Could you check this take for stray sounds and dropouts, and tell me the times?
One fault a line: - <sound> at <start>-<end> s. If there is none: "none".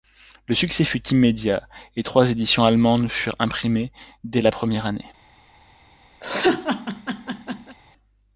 - laugh at 6.2-7.8 s